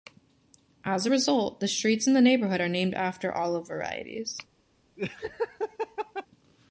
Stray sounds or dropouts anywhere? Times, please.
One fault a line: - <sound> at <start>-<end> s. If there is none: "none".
- laugh at 5.0-6.3 s